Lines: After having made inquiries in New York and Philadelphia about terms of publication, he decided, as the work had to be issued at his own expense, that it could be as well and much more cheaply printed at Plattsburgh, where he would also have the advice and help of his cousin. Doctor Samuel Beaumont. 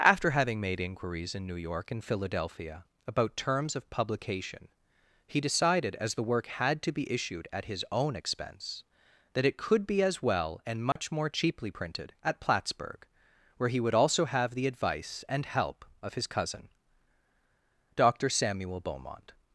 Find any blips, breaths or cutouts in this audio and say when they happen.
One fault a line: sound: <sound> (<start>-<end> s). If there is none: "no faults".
sound: dropout (10.9-11.0 s)